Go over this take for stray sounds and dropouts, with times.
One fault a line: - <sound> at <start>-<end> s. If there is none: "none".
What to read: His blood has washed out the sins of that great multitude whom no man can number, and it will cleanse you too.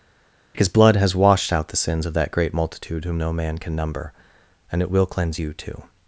none